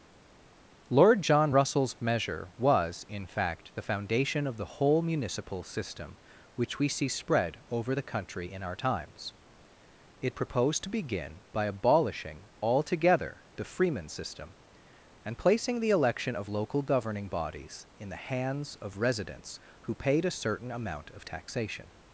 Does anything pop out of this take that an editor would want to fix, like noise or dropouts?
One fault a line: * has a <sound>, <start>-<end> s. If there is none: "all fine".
all fine